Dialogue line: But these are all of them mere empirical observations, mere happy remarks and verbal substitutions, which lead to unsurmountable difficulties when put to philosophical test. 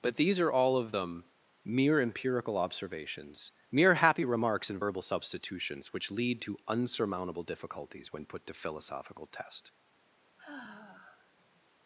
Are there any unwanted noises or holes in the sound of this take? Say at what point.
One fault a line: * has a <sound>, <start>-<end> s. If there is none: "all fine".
* has a sigh, 10.4-11.6 s